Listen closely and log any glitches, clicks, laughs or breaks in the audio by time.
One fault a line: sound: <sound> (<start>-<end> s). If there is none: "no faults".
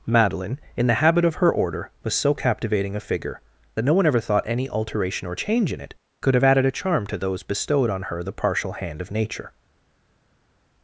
no faults